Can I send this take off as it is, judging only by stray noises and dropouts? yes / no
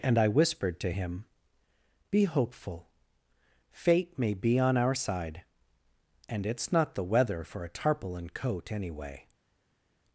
yes